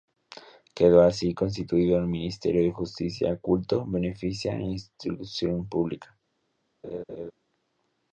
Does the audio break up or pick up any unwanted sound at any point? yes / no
yes